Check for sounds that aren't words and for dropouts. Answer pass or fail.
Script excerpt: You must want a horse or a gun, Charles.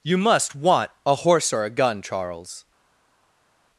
pass